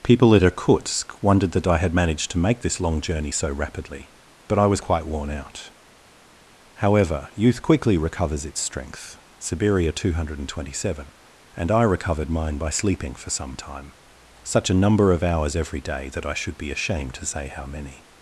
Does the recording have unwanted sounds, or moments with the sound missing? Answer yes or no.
no